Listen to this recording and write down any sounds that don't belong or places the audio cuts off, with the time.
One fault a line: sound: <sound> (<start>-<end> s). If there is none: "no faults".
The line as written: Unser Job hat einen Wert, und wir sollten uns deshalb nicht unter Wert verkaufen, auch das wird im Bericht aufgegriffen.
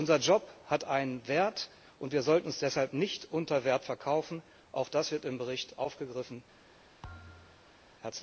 sound: thud (7.0-7.8 s)